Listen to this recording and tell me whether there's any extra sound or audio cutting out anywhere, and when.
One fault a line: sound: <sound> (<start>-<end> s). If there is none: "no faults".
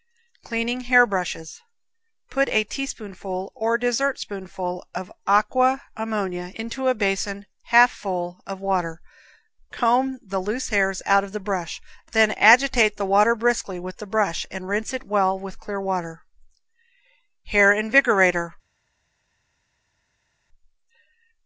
no faults